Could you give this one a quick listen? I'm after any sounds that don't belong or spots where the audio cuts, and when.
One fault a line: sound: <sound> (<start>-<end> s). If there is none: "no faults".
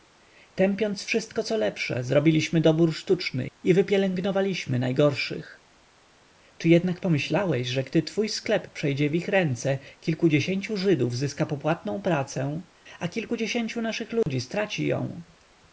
sound: dropout (14.2-14.3 s)